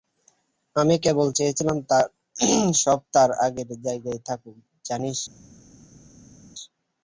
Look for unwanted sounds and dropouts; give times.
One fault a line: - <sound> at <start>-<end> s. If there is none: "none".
none